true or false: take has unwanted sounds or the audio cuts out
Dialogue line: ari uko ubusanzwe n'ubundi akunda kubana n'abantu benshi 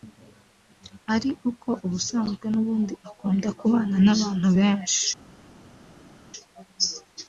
false